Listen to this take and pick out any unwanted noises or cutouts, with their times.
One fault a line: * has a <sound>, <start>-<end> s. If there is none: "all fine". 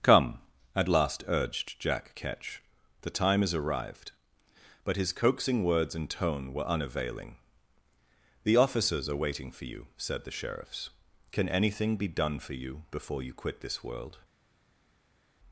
all fine